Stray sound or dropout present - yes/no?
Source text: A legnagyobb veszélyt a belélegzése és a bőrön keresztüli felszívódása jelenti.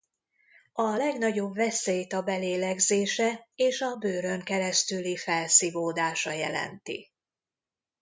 no